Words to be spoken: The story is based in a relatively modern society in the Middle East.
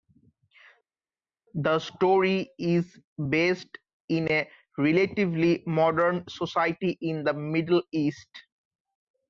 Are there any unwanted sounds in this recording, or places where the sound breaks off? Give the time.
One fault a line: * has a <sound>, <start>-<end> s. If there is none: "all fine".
all fine